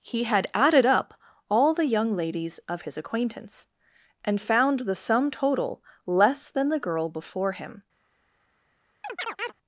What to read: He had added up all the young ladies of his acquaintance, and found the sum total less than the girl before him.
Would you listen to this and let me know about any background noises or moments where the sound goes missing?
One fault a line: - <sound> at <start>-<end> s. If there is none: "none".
- chirp at 9.0-9.5 s